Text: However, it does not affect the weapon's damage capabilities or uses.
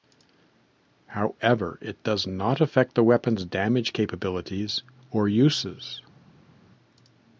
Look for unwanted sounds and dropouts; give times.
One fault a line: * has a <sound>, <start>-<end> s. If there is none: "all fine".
all fine